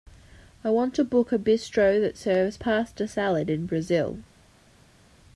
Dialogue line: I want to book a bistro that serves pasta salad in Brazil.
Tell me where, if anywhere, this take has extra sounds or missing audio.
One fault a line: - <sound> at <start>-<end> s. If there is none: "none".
none